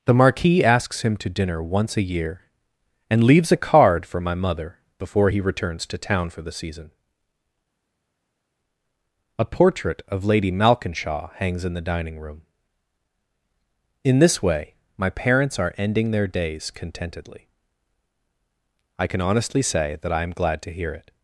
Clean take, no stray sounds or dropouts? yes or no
yes